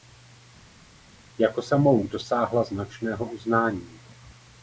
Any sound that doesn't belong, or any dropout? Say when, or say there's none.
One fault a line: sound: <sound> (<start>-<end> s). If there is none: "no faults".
no faults